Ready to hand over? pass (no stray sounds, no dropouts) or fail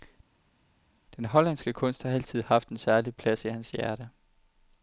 pass